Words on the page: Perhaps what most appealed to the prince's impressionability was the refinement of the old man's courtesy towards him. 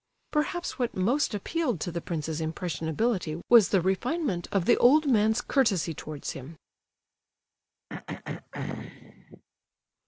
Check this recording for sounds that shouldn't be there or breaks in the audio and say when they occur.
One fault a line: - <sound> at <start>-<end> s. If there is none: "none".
- throat clearing at 7.9-9.4 s